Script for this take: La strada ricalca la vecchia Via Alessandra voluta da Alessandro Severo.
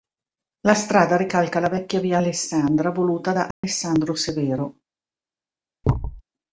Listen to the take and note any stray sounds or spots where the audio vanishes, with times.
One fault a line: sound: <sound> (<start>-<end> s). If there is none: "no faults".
sound: dropout (3.5-3.6 s)
sound: thud (5.8-6.2 s)